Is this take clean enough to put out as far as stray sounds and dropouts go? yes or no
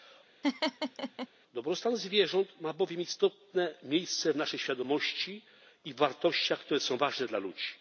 no